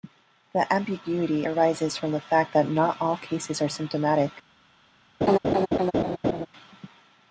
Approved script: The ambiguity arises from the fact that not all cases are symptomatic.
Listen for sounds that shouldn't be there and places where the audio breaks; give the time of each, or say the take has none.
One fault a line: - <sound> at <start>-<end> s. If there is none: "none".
- laugh at 5.2-6.5 s